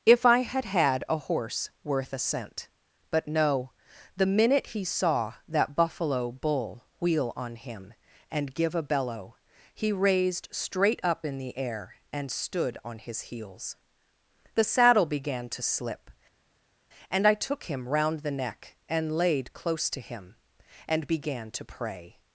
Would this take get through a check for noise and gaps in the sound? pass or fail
pass